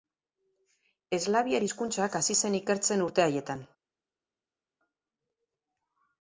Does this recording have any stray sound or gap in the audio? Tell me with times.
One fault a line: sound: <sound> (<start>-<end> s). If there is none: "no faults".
no faults